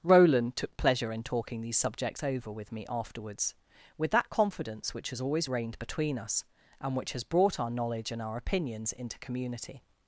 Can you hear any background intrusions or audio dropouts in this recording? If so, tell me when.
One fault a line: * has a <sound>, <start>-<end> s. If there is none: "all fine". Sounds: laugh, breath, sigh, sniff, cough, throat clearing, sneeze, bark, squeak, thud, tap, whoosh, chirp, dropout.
all fine